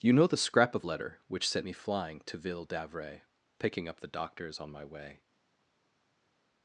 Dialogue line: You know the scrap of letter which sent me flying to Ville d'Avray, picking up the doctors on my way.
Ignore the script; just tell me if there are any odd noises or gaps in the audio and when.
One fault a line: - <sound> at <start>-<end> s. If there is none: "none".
none